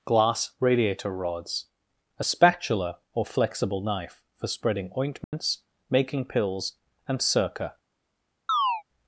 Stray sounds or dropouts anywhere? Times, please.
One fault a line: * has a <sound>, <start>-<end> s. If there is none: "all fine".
* has a dropout, 5.2-5.3 s
* has a chirp, 8.5-8.8 s